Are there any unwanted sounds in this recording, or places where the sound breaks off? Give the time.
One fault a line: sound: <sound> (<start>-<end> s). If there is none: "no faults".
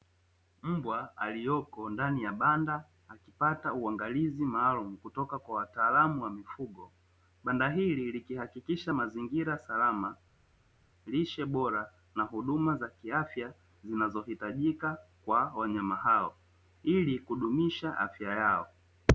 no faults